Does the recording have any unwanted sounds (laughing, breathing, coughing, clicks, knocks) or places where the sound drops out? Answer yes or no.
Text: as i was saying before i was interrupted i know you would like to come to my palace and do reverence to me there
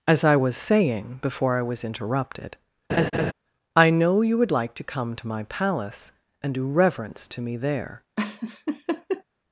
yes